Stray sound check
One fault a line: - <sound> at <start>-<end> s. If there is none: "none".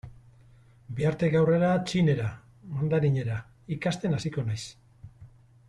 none